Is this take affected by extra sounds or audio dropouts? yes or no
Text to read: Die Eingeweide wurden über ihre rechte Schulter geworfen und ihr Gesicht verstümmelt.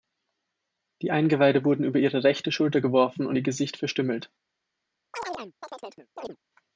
yes